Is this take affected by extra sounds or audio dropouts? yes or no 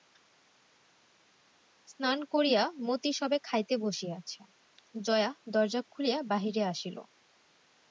no